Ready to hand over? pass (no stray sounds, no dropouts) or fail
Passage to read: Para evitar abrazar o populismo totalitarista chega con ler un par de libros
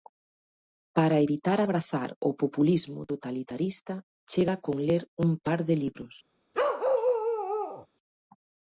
fail